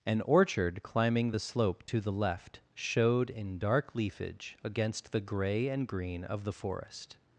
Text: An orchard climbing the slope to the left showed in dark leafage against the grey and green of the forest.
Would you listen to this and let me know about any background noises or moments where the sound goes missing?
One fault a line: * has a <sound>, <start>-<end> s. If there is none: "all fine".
all fine